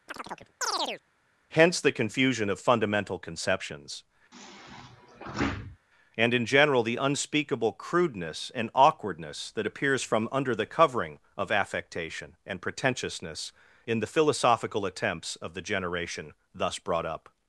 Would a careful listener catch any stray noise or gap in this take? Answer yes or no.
yes